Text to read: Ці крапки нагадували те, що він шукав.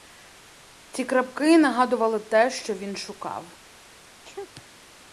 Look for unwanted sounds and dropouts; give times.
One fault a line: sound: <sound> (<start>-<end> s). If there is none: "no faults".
sound: sneeze (4.2-4.5 s)